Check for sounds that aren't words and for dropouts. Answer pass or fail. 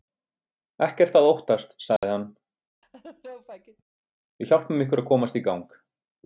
fail